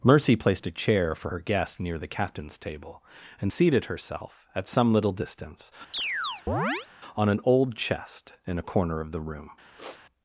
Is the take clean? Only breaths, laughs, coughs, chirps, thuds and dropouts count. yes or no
no